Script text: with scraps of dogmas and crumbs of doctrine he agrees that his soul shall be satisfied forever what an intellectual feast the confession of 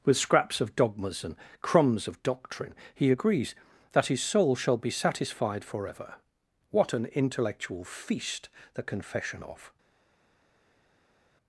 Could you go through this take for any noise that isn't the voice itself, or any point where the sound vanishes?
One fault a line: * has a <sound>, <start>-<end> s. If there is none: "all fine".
all fine